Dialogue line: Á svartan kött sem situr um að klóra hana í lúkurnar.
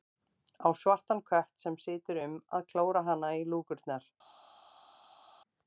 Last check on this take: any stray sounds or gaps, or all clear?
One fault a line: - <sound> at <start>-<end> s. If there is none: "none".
none